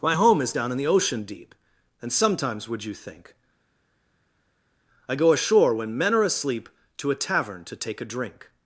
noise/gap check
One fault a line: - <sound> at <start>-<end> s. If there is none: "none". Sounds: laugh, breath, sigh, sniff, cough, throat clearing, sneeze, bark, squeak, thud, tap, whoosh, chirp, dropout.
none